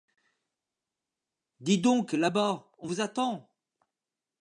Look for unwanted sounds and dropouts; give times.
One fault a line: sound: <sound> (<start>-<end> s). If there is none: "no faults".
no faults